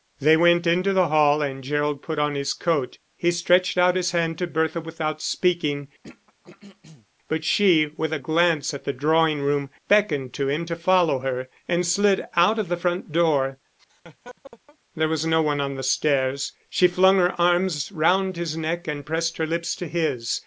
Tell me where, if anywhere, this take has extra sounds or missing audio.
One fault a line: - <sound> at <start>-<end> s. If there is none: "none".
- throat clearing at 6.0-7.1 s
- laugh at 13.8-14.8 s